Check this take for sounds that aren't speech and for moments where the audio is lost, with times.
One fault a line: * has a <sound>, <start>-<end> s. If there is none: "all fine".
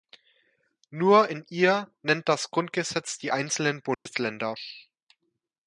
* has a dropout, 3.9-4.1 s